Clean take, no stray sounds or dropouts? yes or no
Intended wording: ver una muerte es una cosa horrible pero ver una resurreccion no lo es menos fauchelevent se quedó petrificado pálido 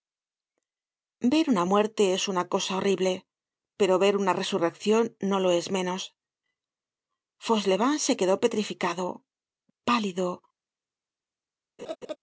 no